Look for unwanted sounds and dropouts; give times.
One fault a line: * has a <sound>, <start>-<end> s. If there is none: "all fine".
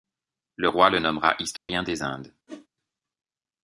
* has a dropout, 1.6-1.7 s
* has a whoosh, 2.5-2.7 s